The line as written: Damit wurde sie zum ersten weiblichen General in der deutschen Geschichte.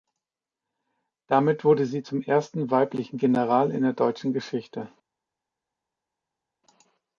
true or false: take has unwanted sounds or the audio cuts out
false